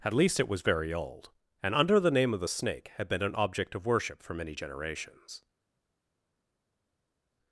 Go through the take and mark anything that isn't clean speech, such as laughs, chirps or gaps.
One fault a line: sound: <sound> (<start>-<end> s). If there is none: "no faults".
no faults